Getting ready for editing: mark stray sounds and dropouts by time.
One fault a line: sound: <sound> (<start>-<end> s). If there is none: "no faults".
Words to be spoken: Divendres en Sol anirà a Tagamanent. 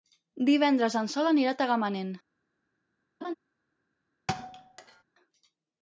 sound: laugh (3.2-3.3 s)
sound: thud (4.3-5.0 s)